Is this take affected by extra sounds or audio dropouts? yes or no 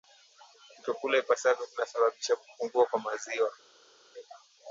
no